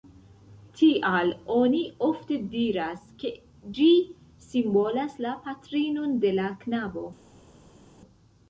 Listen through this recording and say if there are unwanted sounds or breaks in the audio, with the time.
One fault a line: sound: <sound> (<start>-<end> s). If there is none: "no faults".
no faults